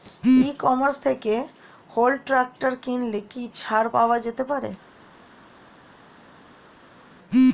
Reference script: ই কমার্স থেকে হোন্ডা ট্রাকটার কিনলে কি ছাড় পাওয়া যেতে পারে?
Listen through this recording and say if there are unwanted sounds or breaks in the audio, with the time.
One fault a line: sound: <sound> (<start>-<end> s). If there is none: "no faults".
no faults